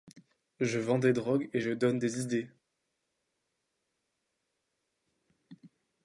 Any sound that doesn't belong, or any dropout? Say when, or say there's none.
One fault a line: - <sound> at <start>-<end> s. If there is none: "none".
none